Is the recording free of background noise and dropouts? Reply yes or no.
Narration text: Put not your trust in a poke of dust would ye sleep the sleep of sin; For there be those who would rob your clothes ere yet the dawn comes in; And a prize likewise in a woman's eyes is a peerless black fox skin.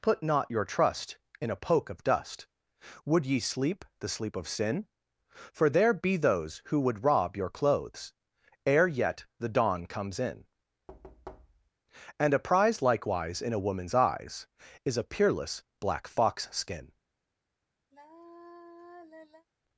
no